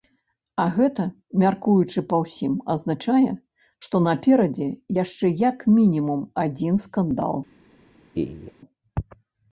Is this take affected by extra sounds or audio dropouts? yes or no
yes